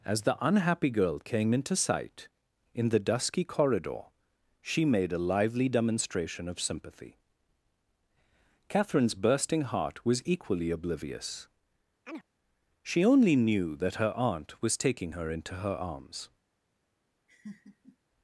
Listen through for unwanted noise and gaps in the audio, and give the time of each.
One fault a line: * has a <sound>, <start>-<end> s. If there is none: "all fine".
* has a chirp, 12.1-12.3 s
* has a laugh, 17.3-18.0 s